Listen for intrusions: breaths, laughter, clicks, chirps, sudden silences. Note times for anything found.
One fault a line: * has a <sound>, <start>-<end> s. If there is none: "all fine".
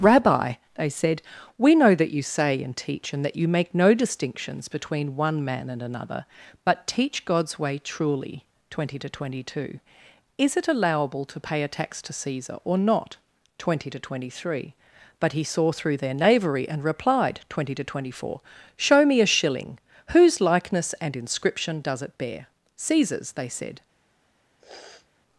* has a sniff, 24.6-25.1 s